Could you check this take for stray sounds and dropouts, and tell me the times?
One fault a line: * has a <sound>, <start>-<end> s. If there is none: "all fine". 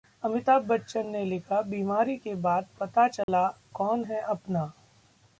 * has a dropout, 3.2-3.3 s